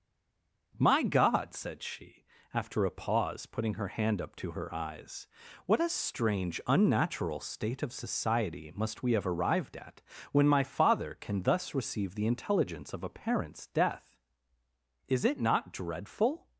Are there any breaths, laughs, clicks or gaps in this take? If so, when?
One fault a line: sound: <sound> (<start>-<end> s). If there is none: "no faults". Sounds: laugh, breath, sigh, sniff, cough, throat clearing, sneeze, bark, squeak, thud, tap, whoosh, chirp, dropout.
no faults